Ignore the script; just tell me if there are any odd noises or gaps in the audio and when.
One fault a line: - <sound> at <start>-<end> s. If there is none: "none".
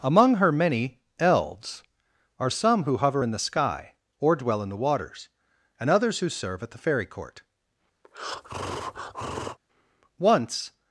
- breath at 8.0-9.6 s